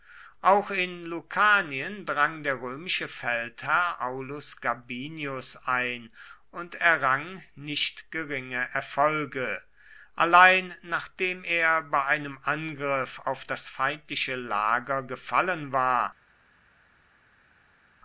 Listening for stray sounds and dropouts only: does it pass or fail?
pass